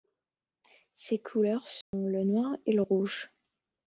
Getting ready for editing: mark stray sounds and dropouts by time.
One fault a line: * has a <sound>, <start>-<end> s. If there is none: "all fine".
* has a dropout, 1.8-1.9 s